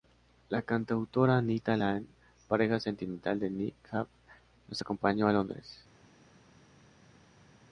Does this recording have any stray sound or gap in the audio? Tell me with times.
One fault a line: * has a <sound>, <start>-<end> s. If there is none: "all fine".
all fine